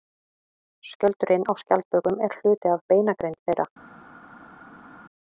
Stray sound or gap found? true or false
false